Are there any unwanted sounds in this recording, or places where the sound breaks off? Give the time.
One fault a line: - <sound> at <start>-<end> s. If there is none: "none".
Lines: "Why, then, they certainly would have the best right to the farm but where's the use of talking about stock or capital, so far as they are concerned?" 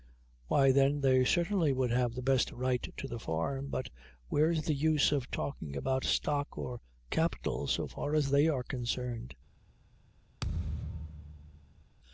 - thud at 10.4-11.8 s